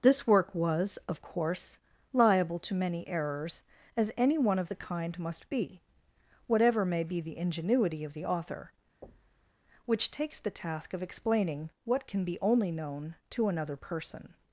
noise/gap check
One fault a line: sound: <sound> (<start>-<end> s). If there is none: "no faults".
sound: thud (9.0-9.6 s)